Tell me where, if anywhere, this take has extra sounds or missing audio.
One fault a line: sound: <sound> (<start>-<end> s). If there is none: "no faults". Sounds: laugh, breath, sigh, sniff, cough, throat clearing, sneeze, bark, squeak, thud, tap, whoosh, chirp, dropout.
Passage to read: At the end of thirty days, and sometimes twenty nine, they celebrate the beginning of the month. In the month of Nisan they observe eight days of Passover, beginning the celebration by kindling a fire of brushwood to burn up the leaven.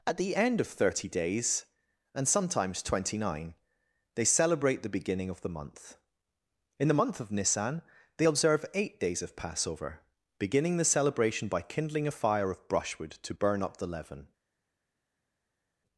no faults